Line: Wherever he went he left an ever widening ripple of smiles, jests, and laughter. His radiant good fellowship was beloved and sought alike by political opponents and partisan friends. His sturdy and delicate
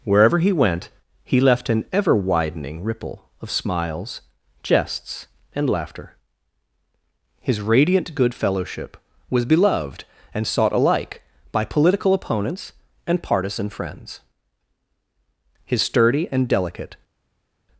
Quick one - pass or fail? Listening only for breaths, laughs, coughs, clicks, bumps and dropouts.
pass